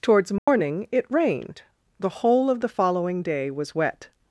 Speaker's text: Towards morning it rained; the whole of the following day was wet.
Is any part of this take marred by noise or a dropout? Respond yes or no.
yes